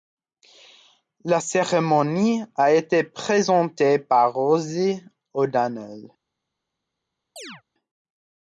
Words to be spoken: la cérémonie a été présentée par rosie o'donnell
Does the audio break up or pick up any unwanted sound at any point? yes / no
yes